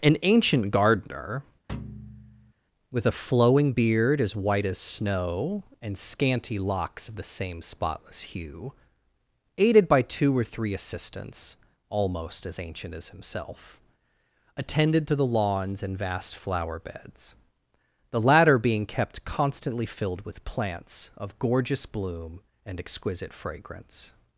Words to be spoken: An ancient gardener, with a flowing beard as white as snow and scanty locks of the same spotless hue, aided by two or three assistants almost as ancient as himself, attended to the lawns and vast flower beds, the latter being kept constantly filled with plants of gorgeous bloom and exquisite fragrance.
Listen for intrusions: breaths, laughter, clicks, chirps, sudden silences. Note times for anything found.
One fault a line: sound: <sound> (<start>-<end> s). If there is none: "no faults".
sound: thud (1.7-2.5 s)